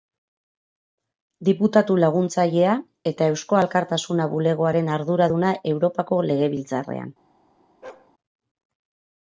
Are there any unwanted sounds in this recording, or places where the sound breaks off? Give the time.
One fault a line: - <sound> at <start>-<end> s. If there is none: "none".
- bark at 7.8-8.1 s